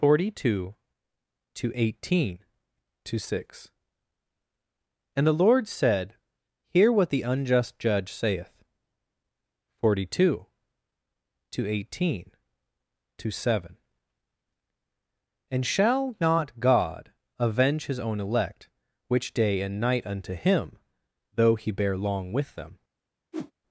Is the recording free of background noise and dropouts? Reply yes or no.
no